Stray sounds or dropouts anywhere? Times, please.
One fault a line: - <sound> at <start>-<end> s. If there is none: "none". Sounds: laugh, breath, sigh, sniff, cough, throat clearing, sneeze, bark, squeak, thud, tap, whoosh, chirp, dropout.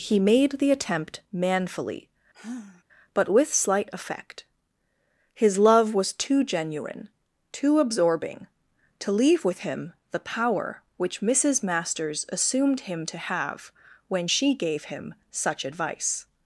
- sigh at 2.3-2.8 s